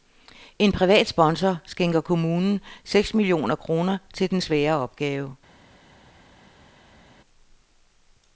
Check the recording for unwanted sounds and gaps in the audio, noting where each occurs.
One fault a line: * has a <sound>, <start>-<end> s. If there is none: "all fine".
all fine